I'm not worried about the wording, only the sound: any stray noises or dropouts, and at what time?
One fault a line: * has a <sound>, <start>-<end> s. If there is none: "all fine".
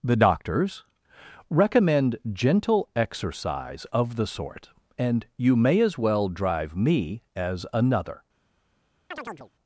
* has a chirp, 9.1-9.5 s